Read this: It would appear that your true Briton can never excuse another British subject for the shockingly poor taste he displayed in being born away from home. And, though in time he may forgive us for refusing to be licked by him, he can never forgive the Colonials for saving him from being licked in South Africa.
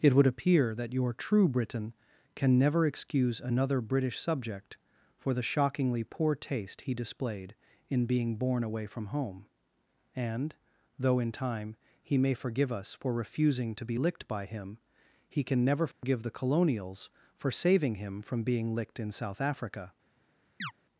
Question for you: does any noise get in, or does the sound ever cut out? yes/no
yes